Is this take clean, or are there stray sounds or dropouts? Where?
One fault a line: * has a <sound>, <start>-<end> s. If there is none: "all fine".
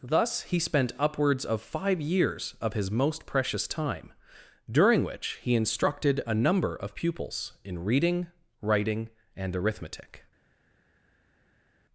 all fine